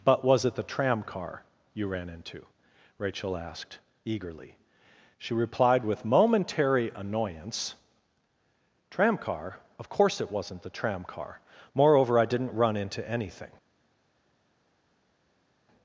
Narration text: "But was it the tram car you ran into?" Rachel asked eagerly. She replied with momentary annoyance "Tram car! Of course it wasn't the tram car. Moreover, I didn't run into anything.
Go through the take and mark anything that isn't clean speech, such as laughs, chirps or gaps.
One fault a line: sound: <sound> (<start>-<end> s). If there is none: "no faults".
no faults